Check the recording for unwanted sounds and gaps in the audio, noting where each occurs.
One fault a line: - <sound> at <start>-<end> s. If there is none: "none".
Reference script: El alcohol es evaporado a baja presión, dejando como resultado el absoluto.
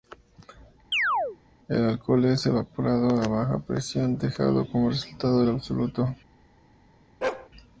- chirp at 0.9-1.4 s
- bark at 7.2-7.5 s